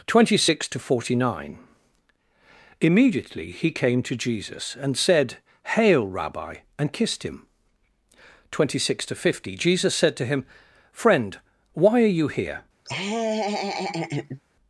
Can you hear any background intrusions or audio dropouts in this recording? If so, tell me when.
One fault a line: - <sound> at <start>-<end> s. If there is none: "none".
- laugh at 12.8-14.4 s